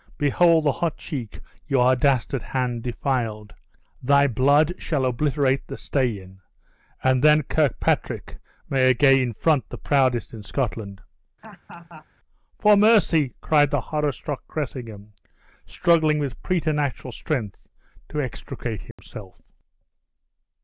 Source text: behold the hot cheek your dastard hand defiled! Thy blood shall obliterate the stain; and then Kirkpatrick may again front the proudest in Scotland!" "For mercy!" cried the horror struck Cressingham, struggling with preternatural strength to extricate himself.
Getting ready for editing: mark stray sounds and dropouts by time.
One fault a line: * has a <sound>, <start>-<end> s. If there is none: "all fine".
* has a laugh, 11.4-12.1 s
* has a dropout, 18.9-19.0 s